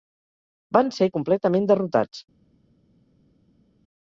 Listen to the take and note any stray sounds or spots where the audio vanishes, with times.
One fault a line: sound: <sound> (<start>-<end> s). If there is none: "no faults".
no faults